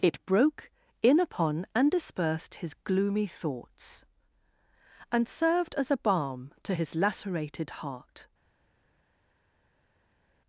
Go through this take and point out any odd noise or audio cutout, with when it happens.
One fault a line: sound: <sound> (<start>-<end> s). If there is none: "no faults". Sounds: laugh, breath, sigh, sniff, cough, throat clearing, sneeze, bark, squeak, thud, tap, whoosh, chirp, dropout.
no faults